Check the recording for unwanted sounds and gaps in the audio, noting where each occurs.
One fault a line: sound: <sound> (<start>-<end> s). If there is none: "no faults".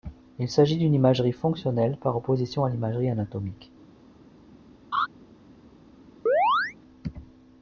sound: laugh (4.9-5.1 s)
sound: chirp (6.3-6.8 s)